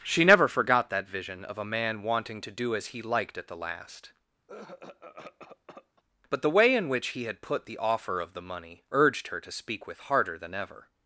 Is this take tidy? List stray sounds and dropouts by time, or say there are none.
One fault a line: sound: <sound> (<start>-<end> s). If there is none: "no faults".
sound: cough (4.5-6.0 s)